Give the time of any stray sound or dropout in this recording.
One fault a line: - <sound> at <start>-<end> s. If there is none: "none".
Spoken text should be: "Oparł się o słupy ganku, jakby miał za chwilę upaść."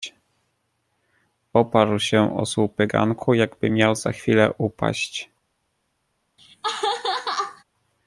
- laugh at 6.4-7.6 s